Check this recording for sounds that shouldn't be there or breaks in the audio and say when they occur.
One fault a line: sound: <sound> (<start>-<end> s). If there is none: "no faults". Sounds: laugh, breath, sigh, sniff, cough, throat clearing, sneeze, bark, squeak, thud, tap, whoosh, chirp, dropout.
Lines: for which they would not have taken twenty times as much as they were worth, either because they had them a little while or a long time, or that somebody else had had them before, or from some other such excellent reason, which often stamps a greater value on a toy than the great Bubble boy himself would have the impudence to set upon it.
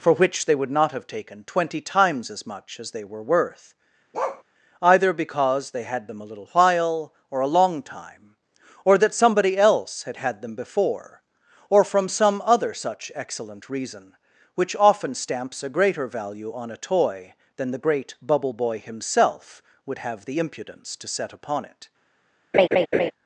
sound: bark (4.1-4.4 s)
sound: laugh (22.5-23.1 s)